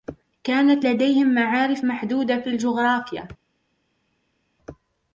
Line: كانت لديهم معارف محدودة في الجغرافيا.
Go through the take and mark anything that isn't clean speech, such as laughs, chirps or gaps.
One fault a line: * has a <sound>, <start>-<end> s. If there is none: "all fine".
all fine